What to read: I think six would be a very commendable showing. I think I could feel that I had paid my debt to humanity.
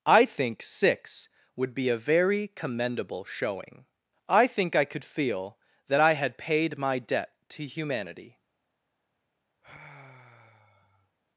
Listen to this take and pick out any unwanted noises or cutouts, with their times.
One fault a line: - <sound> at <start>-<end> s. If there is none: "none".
- sigh at 9.6-11.2 s